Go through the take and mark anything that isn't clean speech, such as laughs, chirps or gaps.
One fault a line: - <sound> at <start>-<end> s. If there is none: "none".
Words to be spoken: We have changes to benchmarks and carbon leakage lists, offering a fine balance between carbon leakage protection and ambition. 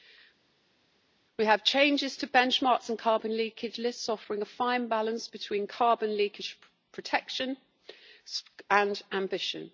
none